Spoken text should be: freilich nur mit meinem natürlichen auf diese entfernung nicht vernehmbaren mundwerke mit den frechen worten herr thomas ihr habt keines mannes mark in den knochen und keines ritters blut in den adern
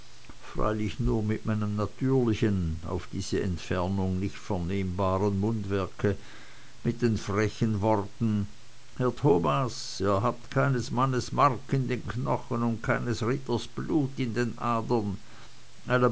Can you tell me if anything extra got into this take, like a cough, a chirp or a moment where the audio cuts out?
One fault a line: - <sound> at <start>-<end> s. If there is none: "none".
none